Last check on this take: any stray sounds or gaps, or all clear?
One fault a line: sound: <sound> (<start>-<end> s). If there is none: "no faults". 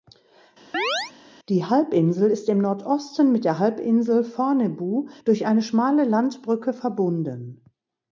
sound: chirp (0.7-1.1 s)